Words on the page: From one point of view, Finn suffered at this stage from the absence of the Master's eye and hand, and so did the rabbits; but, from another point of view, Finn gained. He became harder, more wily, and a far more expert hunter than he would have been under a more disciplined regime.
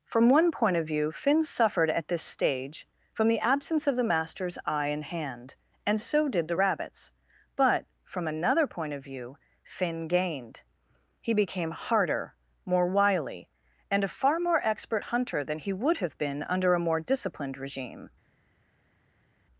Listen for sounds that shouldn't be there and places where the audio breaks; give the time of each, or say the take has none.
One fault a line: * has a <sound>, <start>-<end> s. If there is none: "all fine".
all fine